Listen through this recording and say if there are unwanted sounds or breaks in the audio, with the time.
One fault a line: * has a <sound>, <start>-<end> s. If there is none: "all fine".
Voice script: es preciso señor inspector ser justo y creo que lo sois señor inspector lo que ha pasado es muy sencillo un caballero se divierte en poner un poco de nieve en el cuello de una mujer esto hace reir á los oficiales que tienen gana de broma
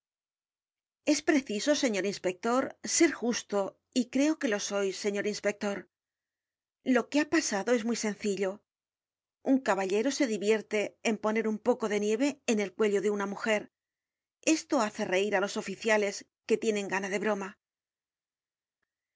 all fine